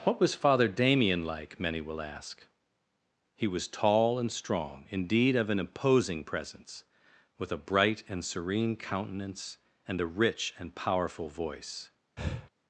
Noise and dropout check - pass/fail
fail